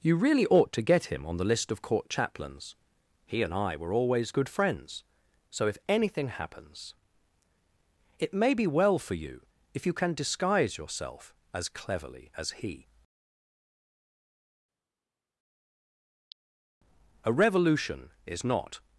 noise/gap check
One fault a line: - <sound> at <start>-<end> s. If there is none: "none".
none